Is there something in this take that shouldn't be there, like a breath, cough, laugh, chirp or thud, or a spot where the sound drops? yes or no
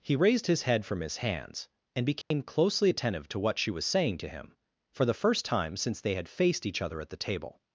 yes